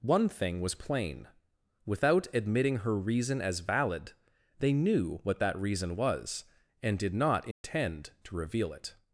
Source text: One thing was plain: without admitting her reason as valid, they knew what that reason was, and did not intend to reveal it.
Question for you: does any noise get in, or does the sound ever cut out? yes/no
yes